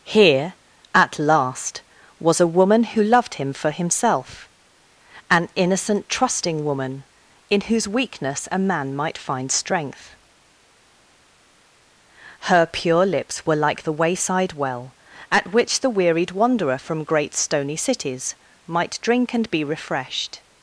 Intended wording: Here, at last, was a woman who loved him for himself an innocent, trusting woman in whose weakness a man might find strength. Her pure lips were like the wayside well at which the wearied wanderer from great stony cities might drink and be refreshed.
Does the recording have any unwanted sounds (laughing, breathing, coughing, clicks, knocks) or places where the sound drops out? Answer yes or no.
no